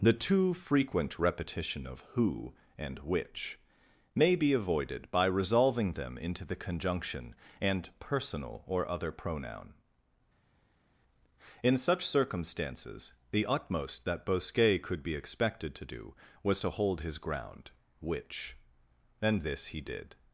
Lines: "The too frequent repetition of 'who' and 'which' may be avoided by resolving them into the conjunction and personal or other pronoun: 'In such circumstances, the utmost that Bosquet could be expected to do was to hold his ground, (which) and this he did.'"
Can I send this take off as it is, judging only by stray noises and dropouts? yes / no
yes